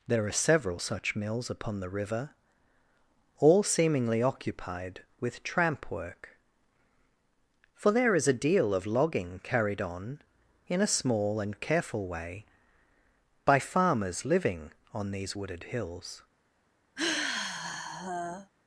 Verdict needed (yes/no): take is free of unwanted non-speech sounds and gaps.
no